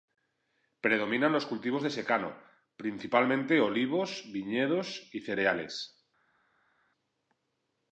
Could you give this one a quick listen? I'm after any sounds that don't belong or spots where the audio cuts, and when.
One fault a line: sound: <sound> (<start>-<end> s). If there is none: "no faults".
no faults